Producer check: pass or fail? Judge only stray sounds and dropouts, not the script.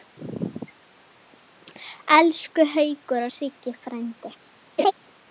fail